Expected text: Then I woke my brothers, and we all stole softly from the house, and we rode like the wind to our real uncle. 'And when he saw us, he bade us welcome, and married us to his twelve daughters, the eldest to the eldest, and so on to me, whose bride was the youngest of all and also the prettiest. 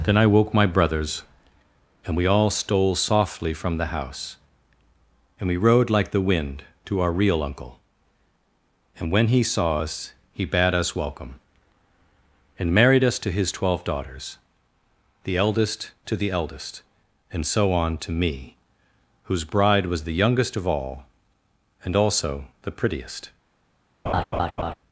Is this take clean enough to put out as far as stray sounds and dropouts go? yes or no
no